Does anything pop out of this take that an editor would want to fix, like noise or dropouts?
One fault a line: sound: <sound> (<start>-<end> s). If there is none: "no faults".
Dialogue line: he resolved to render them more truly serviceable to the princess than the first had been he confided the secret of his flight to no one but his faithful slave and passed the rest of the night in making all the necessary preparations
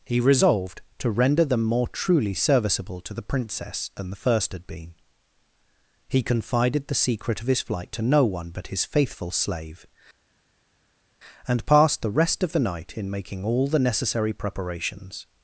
no faults